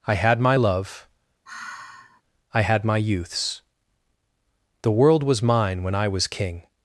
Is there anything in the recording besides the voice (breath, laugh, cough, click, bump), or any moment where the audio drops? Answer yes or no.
yes